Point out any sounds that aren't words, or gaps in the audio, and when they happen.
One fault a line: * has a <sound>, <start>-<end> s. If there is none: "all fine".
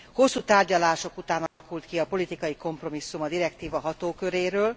* has a dropout, 1.5-1.6 s